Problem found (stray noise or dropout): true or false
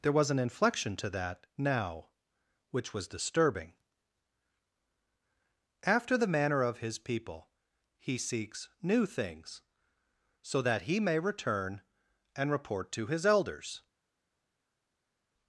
false